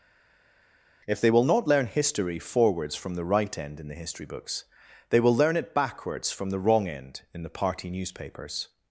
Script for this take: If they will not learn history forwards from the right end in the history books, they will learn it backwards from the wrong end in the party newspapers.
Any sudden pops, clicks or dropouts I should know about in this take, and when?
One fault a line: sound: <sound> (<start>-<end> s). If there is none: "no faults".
no faults